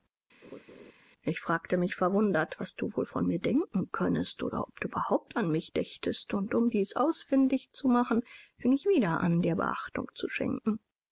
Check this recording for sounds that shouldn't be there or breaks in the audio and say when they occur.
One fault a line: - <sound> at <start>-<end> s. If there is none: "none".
- laugh at 0.4-0.9 s